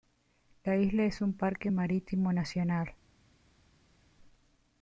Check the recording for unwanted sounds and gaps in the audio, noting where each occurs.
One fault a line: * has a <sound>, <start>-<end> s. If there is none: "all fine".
all fine